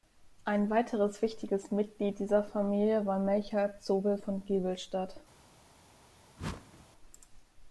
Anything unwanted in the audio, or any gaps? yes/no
yes